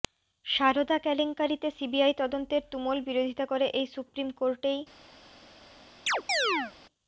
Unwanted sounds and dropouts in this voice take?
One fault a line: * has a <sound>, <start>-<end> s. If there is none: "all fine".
* has a chirp, 6.1-6.7 s